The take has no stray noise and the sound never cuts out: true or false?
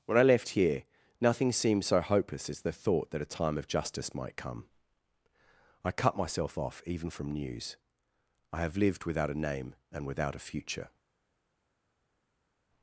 true